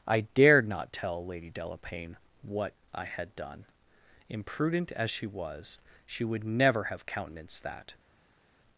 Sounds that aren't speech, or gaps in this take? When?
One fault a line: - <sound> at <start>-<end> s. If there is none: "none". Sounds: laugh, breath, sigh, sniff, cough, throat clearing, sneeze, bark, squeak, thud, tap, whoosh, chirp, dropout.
none